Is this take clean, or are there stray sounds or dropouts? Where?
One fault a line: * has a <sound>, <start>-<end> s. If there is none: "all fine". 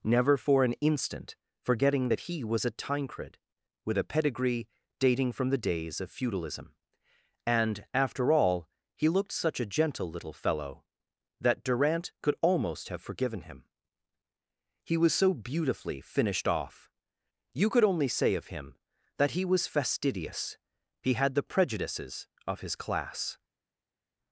all fine